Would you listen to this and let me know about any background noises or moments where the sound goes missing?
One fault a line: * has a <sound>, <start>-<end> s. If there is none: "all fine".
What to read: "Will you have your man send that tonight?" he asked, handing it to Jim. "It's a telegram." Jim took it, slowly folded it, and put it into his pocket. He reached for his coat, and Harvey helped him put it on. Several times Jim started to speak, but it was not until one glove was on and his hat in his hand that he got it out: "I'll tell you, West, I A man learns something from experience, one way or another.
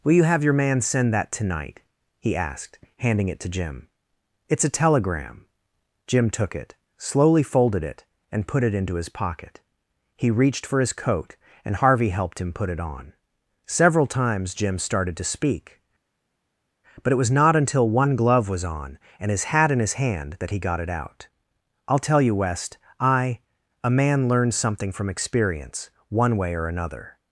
all fine